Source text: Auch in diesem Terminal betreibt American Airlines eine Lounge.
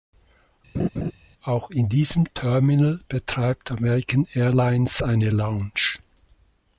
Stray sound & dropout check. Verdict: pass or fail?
fail